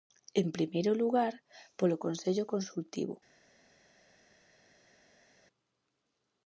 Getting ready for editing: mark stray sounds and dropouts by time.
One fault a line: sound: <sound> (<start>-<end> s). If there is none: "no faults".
no faults